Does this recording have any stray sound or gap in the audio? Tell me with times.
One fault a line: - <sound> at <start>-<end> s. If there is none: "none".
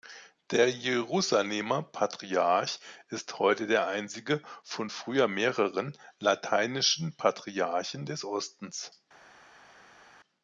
none